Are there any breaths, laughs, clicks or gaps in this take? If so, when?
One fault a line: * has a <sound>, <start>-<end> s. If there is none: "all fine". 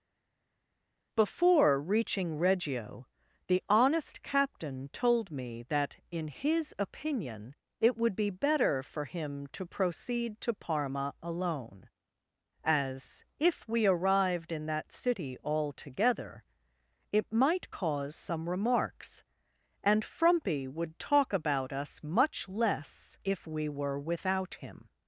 all fine